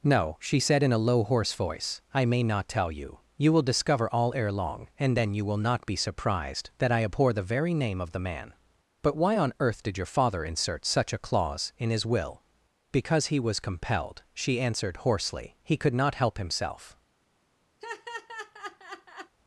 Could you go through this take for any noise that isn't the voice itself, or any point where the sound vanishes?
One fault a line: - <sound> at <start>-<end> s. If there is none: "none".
- laugh at 17.8-19.4 s